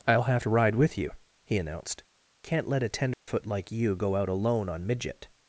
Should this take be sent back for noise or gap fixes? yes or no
yes